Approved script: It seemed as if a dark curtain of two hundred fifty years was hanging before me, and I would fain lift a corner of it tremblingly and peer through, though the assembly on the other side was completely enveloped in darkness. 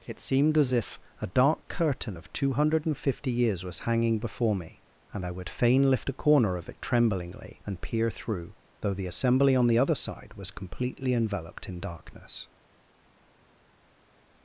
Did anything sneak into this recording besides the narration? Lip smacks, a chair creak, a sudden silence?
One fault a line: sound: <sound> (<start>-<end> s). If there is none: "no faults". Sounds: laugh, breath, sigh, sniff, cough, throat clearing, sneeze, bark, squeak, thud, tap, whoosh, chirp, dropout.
no faults